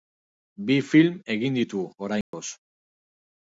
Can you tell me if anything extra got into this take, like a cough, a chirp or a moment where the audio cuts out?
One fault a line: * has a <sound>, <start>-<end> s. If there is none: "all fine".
* has a dropout, 2.2-2.3 s